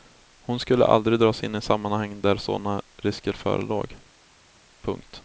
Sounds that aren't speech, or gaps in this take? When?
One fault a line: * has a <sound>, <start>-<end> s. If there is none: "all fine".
all fine